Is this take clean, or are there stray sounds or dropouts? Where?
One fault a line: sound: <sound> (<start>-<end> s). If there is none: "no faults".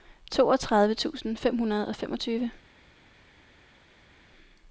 no faults